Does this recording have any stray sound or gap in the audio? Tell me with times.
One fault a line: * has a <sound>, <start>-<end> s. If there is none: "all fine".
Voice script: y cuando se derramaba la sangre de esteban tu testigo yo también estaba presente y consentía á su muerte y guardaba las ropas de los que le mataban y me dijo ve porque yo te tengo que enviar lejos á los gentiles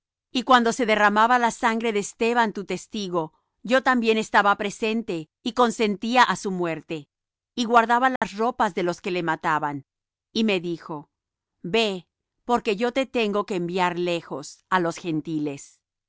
* has a dropout, 8.2-8.2 s